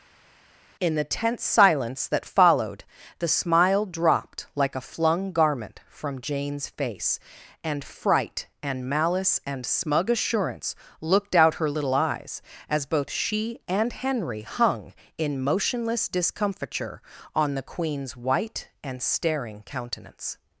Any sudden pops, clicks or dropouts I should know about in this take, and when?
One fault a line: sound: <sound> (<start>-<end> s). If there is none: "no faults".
no faults